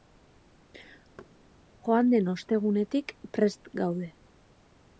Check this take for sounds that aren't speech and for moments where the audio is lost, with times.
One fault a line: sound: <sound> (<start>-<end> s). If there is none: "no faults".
sound: thud (1.2-1.3 s)